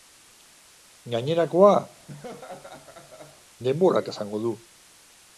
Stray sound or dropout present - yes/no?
yes